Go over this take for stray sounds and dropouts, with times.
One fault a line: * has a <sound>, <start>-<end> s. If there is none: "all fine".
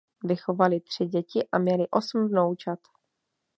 all fine